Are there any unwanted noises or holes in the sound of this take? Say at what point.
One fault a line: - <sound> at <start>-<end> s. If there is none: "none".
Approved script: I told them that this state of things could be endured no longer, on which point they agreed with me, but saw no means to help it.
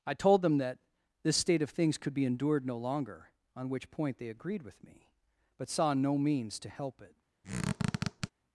- squeak at 7.4-8.3 s